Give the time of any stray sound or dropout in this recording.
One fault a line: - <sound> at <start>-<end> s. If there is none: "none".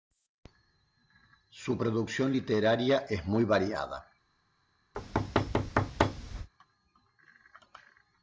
- thud at 4.9-6.5 s